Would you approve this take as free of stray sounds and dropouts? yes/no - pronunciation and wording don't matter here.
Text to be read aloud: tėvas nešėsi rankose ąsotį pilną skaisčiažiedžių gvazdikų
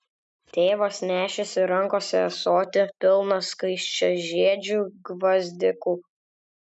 yes